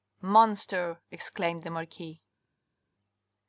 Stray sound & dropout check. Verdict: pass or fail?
pass